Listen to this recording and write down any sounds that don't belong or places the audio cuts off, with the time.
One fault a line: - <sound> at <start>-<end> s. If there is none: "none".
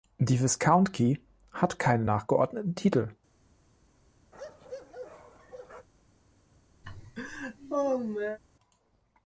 - bark at 4.3-5.9 s
- laugh at 6.8-8.4 s